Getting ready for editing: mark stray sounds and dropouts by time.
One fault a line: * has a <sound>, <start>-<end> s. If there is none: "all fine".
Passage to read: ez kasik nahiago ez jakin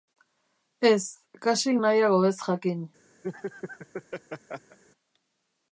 * has a laugh, 3.2-4.8 s